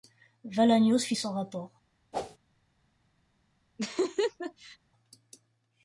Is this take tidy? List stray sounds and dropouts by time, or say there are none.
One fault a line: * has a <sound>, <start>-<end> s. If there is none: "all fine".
* has a whoosh, 2.1-2.4 s
* has a laugh, 3.8-4.8 s